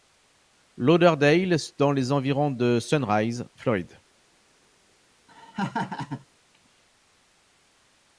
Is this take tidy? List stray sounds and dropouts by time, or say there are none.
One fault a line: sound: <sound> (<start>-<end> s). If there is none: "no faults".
sound: laugh (5.3-6.3 s)